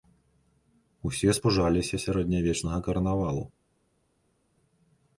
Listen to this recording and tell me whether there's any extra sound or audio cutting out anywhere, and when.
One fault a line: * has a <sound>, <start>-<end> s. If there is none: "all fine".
all fine